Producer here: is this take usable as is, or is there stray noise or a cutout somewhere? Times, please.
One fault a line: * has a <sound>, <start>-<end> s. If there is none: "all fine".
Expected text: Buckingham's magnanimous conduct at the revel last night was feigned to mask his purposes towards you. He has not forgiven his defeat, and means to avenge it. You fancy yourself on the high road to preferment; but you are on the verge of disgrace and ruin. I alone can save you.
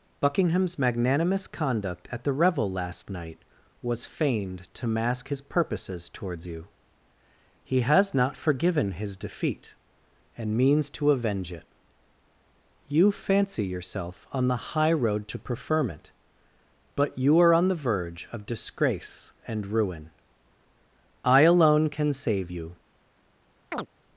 * has a chirp, 23.7-23.9 s